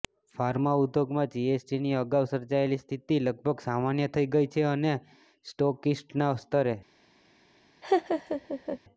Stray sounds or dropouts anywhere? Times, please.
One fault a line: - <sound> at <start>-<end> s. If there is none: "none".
- laugh at 7.8-8.8 s